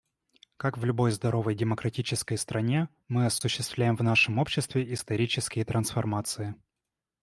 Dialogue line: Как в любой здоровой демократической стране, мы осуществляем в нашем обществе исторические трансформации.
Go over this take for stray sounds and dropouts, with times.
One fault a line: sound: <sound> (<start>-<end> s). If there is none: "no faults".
no faults